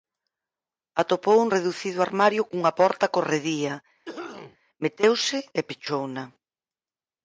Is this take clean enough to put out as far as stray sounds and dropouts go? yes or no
no